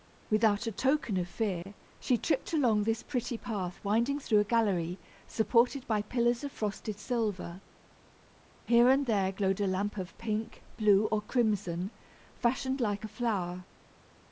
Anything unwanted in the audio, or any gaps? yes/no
yes